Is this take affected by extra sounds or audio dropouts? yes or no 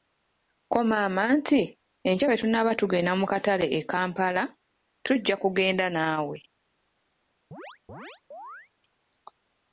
yes